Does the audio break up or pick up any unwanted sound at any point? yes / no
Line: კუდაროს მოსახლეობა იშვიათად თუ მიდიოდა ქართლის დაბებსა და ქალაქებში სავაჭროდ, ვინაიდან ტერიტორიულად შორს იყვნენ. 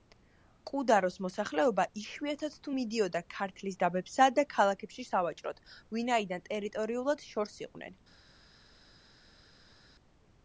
no